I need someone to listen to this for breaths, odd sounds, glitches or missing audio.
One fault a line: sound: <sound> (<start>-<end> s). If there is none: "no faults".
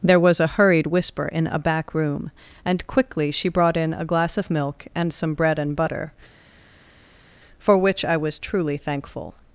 no faults